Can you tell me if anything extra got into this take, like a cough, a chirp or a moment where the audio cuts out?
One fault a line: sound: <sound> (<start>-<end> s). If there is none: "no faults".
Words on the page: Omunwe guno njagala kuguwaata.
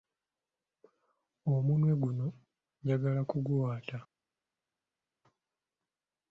no faults